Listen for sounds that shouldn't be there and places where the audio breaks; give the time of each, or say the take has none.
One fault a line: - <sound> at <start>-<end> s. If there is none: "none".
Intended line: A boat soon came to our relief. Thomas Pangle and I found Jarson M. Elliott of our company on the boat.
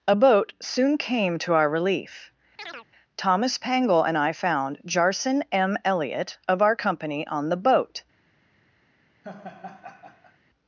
- chirp at 2.6-2.9 s
- laugh at 9.2-10.4 s